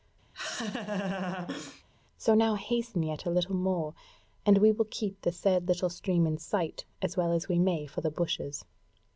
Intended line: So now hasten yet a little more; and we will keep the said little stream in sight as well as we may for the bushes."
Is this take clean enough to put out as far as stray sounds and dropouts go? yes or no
no